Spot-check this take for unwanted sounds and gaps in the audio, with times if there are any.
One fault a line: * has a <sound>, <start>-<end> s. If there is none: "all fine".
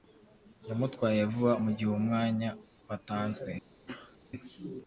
* has a sneeze, 3.9-4.2 s